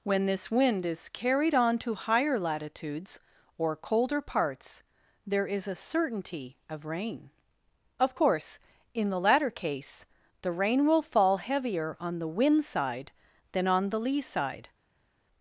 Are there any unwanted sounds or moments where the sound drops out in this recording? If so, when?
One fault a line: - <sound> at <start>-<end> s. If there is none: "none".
none